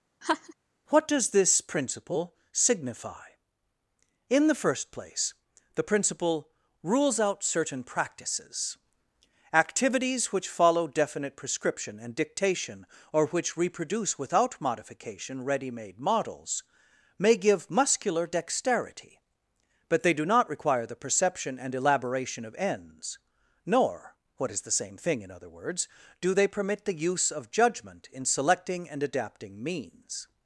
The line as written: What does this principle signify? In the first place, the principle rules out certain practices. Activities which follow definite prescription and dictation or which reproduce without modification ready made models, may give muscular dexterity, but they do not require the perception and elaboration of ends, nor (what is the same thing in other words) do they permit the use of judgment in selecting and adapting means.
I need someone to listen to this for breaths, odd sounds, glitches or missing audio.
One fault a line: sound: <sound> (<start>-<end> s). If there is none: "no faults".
sound: laugh (0.2-0.5 s)